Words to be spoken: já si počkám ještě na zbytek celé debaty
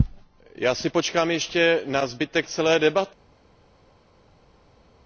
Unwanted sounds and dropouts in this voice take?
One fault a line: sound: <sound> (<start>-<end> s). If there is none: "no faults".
no faults